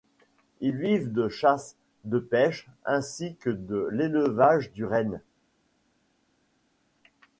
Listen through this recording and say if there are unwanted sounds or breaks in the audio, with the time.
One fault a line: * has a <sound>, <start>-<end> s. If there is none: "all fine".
all fine